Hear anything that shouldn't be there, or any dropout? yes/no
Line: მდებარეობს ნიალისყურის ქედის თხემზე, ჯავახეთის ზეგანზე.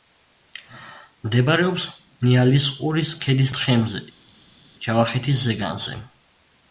no